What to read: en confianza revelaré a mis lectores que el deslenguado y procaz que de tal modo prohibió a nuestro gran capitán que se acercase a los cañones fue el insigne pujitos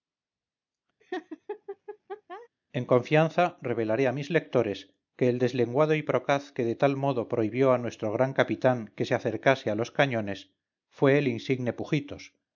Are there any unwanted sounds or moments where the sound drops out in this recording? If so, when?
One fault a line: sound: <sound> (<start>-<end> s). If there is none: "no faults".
sound: laugh (1.0-2.5 s)